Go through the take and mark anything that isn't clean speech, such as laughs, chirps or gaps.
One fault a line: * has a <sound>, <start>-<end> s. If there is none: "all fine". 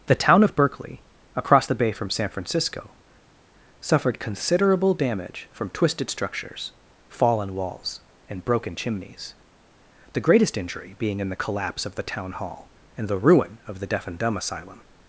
all fine